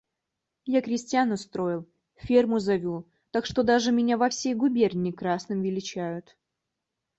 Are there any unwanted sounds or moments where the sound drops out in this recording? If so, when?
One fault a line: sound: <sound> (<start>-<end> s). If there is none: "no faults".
no faults